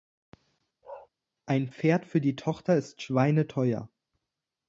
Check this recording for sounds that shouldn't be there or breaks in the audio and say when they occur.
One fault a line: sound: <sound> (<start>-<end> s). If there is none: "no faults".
sound: bark (0.8-1.1 s)